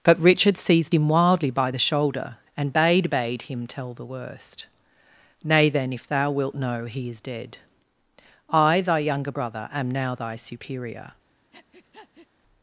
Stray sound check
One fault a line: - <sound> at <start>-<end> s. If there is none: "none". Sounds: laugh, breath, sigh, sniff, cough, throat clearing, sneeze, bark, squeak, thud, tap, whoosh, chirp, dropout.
- breath at 11.5-12.3 s